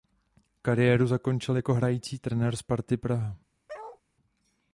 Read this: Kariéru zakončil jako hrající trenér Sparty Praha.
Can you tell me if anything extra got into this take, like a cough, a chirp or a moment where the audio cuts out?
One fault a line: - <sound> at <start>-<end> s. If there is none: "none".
- bark at 3.7-4.0 s